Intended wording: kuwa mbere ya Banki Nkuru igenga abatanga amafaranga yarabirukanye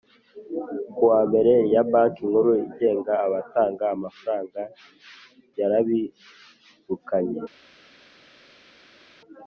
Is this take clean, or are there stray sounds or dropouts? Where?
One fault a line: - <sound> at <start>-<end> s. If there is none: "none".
none